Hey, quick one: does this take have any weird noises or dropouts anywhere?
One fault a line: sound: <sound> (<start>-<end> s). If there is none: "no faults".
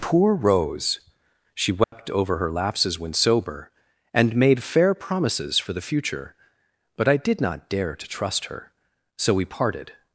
sound: dropout (1.8-1.9 s)